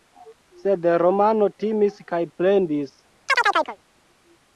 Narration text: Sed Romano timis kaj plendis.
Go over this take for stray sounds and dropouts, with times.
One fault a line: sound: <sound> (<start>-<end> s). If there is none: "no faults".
sound: chirp (3.3-3.8 s)